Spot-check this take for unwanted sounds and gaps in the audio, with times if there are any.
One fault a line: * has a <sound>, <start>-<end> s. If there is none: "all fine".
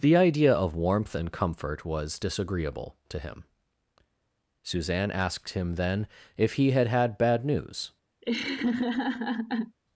* has a laugh, 8.2-9.8 s